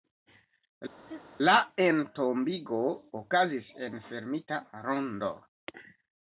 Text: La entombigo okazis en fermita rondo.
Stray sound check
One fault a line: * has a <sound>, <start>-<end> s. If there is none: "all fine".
* has a laugh, 1.1-1.2 s